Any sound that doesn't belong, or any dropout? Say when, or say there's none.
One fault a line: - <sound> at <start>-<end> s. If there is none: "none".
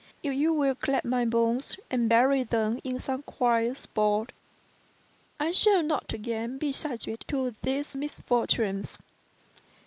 none